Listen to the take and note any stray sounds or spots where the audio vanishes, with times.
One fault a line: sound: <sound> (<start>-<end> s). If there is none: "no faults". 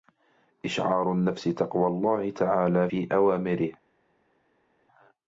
no faults